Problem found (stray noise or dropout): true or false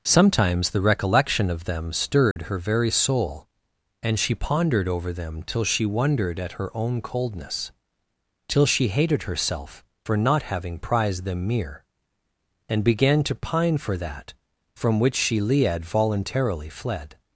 true